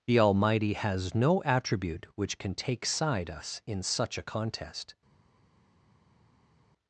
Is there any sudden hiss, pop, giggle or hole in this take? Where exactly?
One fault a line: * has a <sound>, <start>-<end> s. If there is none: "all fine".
all fine